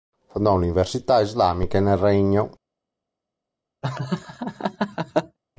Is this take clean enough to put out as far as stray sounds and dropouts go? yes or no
no